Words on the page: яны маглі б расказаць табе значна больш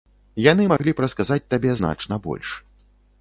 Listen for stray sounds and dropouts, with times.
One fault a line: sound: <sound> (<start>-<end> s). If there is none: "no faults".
sound: dropout (0.8-0.8 s)